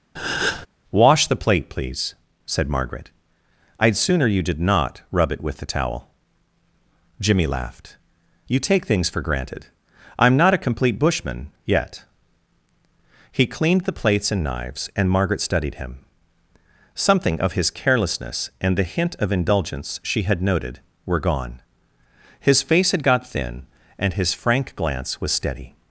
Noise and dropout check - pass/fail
fail